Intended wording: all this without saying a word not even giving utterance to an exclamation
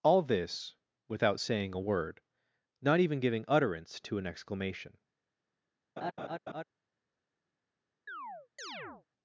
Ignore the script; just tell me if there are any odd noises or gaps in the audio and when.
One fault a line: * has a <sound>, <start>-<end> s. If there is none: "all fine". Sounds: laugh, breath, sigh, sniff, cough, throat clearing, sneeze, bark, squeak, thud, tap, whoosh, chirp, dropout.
* has a laugh, 6.0-6.6 s
* has a chirp, 8.1-9.1 s